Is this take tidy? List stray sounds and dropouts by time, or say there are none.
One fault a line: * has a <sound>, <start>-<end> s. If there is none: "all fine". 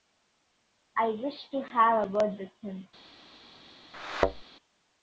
* has a thud, 3.9-4.4 s